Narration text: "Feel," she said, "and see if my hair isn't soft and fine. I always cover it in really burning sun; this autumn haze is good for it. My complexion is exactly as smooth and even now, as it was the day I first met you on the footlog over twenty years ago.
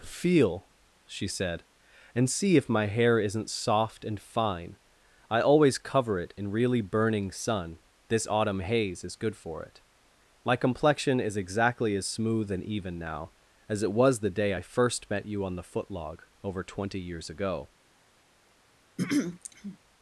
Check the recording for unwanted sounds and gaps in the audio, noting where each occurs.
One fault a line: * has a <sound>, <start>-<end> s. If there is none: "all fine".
* has a throat clearing, 19.0-19.8 s